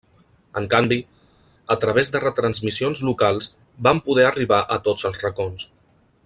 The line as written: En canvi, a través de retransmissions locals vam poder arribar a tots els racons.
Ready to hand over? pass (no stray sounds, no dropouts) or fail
pass